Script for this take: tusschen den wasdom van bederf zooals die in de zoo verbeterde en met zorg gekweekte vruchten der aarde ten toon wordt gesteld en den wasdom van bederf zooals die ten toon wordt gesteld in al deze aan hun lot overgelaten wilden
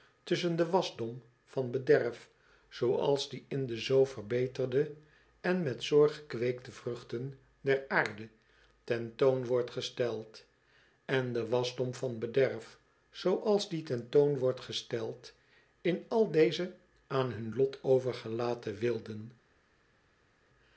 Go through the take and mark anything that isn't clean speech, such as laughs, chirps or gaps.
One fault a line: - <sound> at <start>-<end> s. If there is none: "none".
none